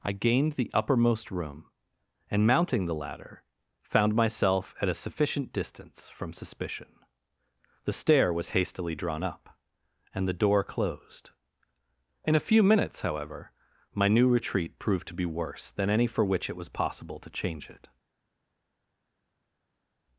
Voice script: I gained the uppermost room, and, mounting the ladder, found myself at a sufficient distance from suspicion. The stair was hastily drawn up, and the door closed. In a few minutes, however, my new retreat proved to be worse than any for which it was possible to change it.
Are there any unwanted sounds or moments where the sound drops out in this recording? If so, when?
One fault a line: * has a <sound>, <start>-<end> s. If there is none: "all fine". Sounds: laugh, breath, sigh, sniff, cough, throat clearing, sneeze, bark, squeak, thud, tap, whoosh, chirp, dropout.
all fine